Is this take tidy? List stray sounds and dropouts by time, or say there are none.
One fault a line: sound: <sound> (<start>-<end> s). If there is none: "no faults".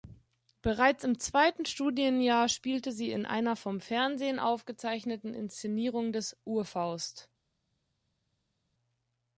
no faults